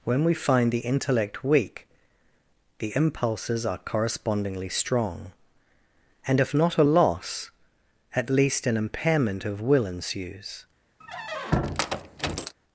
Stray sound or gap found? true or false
true